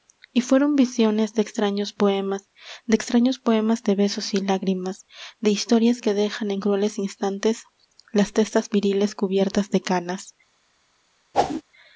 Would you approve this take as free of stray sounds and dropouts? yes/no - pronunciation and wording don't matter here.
no